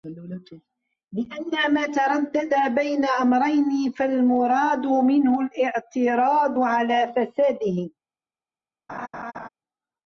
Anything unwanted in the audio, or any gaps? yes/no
yes